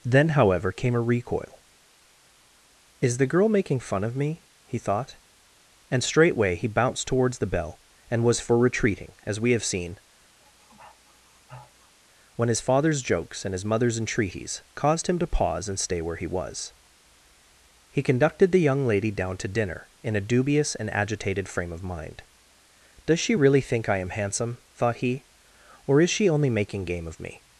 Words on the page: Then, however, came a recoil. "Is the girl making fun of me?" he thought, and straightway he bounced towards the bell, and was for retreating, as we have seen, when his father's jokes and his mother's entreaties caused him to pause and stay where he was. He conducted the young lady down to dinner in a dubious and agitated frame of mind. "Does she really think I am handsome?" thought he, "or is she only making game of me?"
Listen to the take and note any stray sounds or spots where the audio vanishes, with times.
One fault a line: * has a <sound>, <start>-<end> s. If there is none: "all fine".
* has a sniff, 10.4-12.0 s